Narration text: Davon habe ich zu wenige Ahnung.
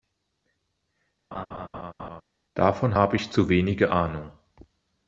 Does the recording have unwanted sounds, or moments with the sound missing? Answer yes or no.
yes